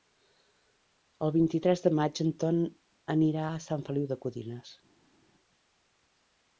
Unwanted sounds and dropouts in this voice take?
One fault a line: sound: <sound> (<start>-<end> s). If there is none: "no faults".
no faults